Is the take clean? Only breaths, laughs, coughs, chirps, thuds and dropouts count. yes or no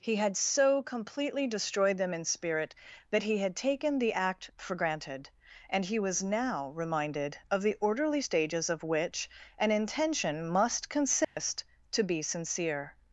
no